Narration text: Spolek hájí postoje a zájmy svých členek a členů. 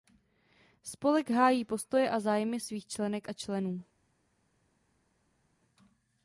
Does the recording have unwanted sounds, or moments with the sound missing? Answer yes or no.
no